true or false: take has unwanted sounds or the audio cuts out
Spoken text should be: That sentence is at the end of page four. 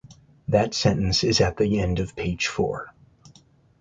false